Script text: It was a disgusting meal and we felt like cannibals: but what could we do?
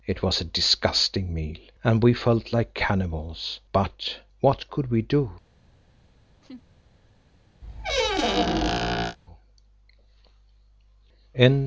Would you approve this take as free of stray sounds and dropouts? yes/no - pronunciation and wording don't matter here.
no